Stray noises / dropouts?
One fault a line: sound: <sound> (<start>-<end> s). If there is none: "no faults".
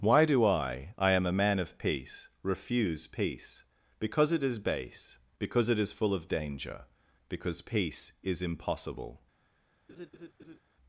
sound: laugh (9.9-10.6 s)